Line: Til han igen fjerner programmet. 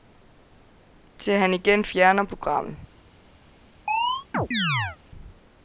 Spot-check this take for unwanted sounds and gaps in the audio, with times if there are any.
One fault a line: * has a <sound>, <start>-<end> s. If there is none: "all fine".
* has a chirp, 3.9-5.0 s